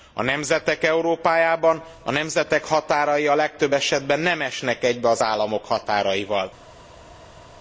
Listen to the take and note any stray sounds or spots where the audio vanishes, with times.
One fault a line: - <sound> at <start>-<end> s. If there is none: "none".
none